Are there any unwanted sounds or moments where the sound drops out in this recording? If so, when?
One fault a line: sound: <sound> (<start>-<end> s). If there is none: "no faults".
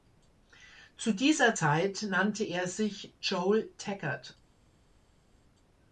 no faults